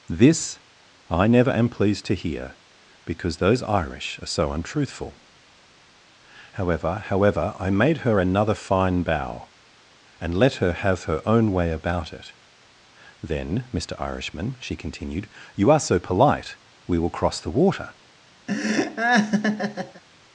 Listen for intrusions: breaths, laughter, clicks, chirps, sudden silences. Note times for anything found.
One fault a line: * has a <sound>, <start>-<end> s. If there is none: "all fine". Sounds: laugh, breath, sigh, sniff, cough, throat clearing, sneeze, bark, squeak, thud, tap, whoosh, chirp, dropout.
* has a laugh, 18.5-20.0 s